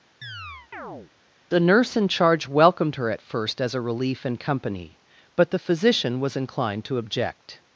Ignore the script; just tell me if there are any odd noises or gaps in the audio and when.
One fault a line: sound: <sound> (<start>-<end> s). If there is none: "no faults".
sound: chirp (0.2-1.1 s)